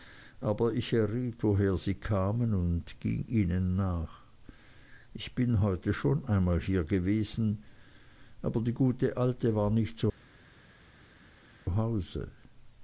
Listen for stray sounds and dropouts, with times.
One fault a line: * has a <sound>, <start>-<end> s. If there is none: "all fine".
all fine